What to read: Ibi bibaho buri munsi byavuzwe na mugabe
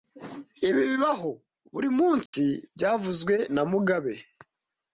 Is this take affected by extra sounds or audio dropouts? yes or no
yes